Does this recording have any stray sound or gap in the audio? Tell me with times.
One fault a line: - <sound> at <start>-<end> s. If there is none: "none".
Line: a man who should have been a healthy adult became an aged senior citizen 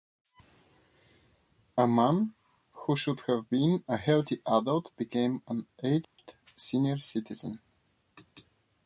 - dropout at 6.0-6.2 s